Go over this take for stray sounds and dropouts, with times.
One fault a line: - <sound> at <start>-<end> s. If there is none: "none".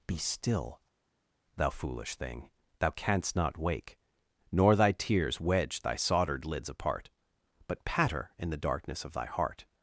none